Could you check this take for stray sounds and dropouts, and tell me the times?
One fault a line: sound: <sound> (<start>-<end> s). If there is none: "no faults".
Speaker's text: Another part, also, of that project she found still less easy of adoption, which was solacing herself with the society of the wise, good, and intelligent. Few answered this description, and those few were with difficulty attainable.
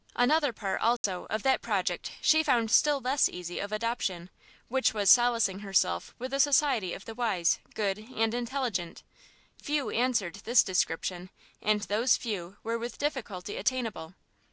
sound: dropout (1.0-1.0 s)